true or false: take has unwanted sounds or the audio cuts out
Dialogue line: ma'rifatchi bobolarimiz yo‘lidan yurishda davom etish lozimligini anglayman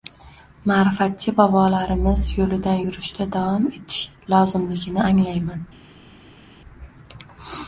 false